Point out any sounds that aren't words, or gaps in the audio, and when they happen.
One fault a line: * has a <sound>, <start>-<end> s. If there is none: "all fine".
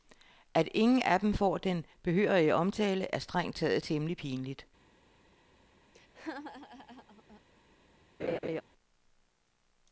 * has a laugh, 5.9-7.4 s
* has a laugh, 8.2-8.6 s